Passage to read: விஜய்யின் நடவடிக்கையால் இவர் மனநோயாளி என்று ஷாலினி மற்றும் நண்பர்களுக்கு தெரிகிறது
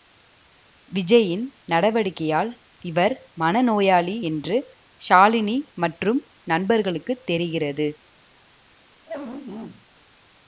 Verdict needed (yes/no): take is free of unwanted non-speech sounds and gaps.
no